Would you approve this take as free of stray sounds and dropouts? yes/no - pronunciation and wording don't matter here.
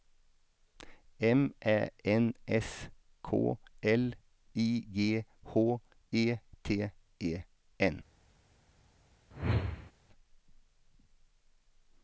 no